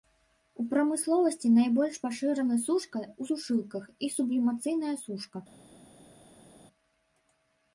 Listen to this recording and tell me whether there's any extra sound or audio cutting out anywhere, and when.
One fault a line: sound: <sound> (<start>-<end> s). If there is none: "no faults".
no faults